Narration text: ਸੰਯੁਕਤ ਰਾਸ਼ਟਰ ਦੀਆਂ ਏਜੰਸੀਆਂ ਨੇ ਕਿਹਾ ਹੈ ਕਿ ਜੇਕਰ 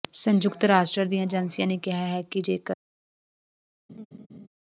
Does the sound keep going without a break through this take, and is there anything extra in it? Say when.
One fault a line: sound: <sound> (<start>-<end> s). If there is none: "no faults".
sound: laugh (3.9-4.5 s)